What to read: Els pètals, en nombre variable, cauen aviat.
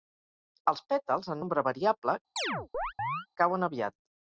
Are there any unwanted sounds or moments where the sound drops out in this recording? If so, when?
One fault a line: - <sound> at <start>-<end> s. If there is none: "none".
- chirp at 2.4-3.3 s